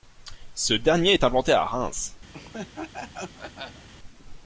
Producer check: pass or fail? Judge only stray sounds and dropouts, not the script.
fail